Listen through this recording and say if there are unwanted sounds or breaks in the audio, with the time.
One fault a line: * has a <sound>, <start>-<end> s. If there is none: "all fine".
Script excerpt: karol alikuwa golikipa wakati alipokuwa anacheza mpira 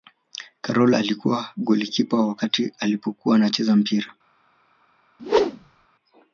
* has a whoosh, 5.2-5.9 s